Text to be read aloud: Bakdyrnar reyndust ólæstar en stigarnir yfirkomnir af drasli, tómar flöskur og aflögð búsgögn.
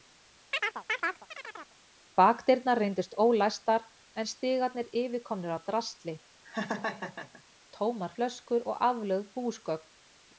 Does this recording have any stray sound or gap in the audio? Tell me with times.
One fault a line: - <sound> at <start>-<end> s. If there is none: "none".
- chirp at 0.5-1.8 s
- laugh at 6.4-7.4 s